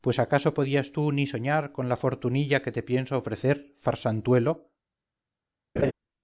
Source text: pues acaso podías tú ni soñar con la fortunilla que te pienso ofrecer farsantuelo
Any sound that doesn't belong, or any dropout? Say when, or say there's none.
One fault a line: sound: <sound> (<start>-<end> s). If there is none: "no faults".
sound: laugh (5.8-5.9 s)